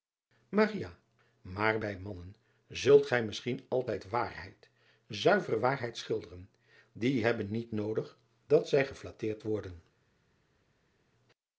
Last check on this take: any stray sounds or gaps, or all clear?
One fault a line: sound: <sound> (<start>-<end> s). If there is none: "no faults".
no faults